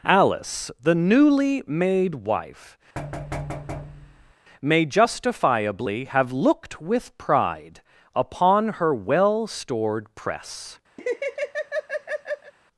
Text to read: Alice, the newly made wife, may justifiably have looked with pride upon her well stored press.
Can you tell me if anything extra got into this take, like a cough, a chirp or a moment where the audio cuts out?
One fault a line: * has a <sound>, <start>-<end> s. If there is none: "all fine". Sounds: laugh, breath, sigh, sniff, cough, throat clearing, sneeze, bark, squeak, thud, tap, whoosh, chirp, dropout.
* has a thud, 3.0-4.3 s
* has a laugh, 11.0-12.5 s